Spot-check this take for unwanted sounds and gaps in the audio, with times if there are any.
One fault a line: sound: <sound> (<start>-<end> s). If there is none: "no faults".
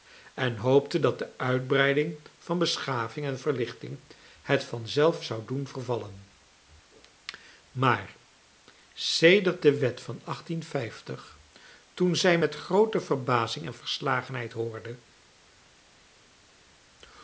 no faults